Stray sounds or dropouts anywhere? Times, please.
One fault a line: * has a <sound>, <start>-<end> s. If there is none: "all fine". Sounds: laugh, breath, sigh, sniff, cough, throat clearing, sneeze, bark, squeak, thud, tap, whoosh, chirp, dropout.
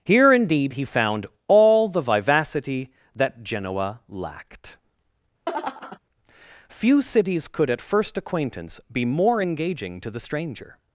* has a laugh, 5.5-6.0 s